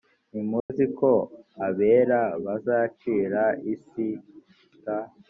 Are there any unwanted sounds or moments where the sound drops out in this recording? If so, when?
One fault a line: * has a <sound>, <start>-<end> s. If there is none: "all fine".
* has a dropout, 0.6-0.7 s